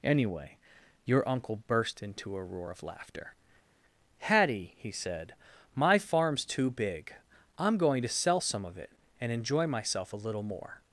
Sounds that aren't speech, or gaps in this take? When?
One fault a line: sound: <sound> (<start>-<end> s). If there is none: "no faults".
no faults